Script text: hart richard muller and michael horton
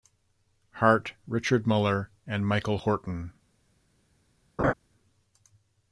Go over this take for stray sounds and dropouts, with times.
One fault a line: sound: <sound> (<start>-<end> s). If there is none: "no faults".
sound: laugh (4.6-4.7 s)